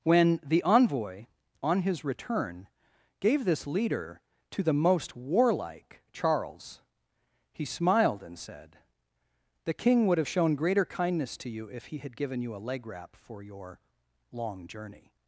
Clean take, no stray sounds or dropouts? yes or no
yes